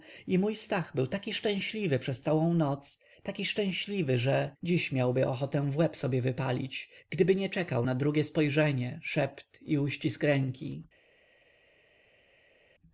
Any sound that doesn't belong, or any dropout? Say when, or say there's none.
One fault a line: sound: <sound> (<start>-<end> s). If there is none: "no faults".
no faults